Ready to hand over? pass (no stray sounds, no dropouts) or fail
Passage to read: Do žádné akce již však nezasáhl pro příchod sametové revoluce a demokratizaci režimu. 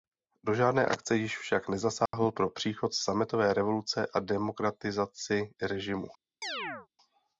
fail